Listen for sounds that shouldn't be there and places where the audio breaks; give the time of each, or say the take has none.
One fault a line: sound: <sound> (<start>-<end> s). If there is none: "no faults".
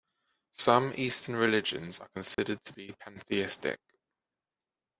sound: dropout (2.3-2.4 s)